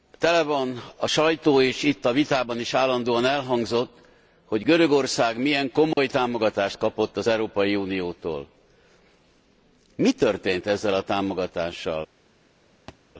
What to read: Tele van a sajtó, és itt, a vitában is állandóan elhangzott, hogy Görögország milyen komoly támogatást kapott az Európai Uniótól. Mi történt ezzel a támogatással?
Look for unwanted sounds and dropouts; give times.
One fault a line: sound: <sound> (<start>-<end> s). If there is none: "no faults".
sound: dropout (5.9-6.0 s)
sound: thud (12.9-13.0 s)